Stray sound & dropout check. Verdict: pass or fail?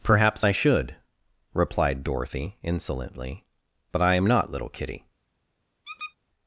fail